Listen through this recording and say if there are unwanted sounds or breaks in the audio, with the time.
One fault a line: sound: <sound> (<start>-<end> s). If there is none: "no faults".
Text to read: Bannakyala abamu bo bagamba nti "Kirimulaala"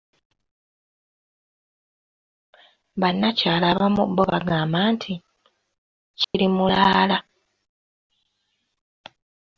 sound: dropout (6.2-6.3 s)